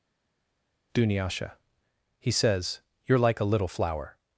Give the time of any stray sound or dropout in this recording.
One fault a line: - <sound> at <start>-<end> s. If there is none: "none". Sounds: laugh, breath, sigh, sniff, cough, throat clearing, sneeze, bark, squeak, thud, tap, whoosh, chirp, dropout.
none